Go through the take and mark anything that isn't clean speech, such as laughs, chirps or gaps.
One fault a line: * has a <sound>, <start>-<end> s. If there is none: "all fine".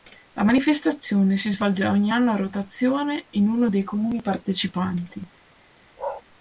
* has a bark, 6.0-6.2 s